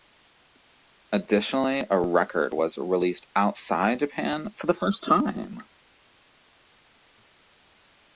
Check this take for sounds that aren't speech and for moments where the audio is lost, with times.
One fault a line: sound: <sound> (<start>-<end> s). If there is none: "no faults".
no faults